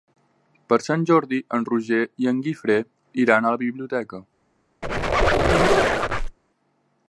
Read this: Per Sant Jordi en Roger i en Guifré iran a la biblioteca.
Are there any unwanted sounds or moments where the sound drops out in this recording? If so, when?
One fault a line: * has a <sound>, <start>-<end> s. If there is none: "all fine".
* has a squeak, 4.8-6.4 s